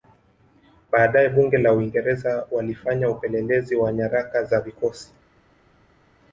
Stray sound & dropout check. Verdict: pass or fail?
pass